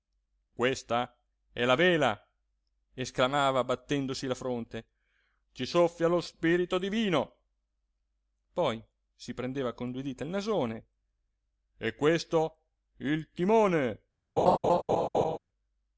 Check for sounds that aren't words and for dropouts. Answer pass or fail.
fail